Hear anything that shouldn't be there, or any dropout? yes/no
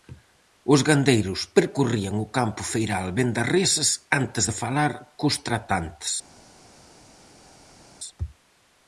no